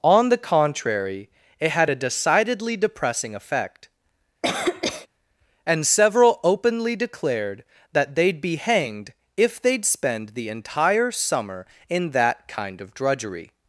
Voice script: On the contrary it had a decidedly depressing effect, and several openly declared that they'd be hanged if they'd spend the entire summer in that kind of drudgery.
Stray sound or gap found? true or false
true